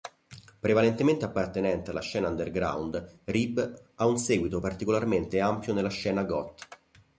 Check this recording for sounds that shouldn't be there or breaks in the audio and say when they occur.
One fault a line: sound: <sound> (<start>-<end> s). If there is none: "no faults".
no faults